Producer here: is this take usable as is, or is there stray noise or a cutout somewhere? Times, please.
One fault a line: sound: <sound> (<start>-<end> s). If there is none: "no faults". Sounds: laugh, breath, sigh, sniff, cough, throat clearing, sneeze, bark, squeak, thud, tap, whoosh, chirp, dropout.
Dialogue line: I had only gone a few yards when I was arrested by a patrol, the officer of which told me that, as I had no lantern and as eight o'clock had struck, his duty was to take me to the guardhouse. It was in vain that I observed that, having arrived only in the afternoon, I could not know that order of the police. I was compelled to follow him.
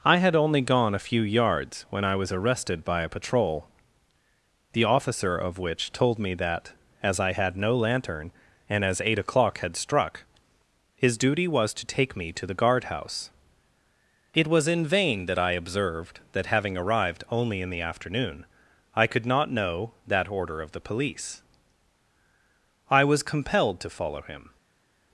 no faults